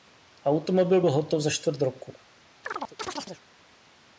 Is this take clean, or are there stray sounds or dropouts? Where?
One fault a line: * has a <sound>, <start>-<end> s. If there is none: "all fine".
* has a chirp, 2.6-3.4 s